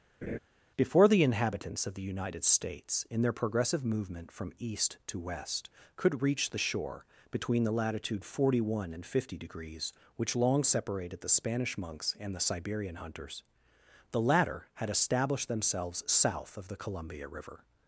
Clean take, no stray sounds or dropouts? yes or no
no